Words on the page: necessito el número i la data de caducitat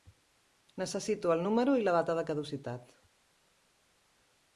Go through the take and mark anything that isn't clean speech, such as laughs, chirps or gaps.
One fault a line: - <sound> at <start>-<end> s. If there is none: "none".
none